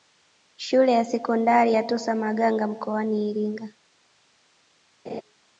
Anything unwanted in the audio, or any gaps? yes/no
yes